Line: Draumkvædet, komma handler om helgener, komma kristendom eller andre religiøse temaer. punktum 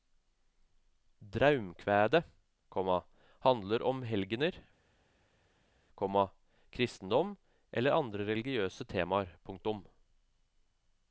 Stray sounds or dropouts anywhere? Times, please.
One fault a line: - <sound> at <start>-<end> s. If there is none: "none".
none